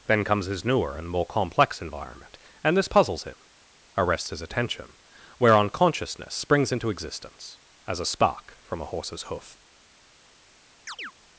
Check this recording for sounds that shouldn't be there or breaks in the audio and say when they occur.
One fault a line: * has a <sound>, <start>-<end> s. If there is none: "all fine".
* has a chirp, 10.9-11.1 s